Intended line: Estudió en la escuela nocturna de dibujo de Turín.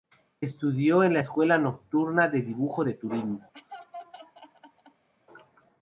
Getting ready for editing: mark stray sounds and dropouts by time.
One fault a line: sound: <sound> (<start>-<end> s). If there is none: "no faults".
sound: laugh (3.5-5.1 s)